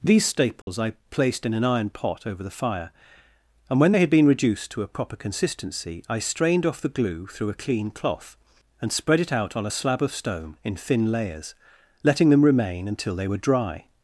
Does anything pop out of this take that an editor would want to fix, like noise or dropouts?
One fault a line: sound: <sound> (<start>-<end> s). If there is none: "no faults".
sound: dropout (0.6-0.7 s)